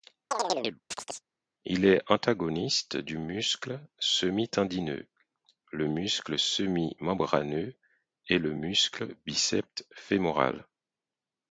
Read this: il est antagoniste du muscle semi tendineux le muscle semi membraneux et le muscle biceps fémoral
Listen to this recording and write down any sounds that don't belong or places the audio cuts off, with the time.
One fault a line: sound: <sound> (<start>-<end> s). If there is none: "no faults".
sound: chirp (0.3-1.2 s)